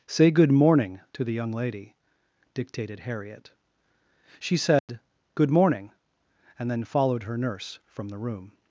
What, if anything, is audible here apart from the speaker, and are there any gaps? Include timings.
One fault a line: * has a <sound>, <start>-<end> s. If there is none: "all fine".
* has a dropout, 4.8-4.9 s